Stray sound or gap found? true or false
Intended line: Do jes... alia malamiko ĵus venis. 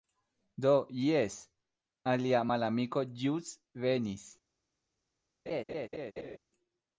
true